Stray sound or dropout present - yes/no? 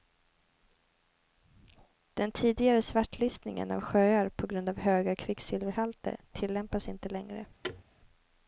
yes